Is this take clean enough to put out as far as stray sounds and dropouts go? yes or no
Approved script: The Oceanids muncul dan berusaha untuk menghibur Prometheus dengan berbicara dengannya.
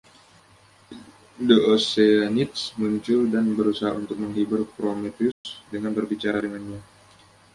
no